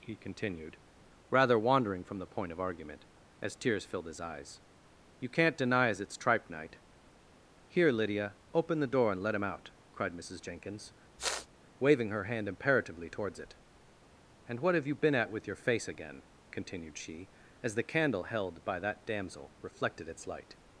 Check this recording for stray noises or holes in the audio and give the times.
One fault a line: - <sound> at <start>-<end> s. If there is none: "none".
- sniff at 11.2-11.5 s